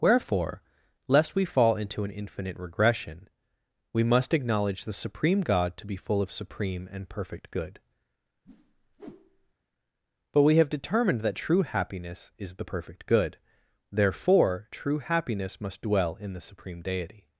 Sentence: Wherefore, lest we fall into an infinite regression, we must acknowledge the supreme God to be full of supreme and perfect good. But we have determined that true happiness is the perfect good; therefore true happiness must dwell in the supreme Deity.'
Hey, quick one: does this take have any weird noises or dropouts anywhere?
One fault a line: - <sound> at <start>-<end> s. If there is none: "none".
- whoosh at 8.4-9.5 s